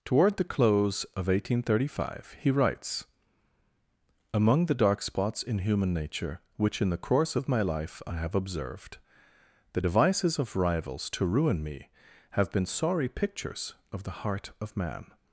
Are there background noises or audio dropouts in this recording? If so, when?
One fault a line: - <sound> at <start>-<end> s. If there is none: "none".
none